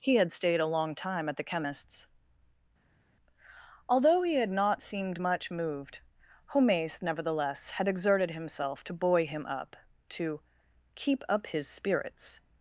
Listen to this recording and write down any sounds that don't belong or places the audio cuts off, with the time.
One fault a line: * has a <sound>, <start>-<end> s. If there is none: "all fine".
all fine